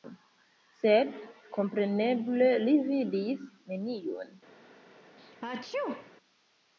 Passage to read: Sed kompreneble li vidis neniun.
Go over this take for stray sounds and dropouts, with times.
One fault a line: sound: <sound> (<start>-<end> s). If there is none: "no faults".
sound: sneeze (5.2-6.1 s)